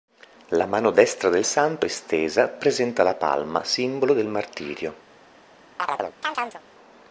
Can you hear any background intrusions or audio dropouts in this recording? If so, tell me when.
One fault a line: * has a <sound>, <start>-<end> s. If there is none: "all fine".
* has a chirp, 5.8-6.6 s